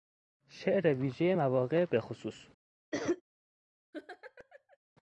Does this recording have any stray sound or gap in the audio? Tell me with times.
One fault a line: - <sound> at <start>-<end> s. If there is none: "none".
- cough at 2.9-3.2 s
- laugh at 3.9-4.8 s